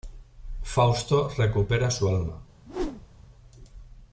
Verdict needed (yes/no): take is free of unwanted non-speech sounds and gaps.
no